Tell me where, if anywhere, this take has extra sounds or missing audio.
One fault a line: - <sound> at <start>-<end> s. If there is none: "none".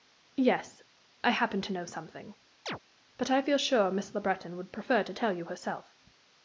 - chirp at 2.7-2.8 s